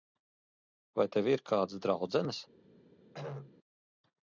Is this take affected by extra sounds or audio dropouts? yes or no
yes